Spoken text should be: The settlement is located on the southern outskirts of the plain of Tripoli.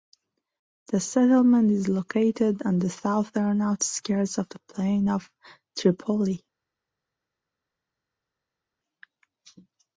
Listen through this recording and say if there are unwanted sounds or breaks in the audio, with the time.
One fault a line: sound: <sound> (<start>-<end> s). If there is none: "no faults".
no faults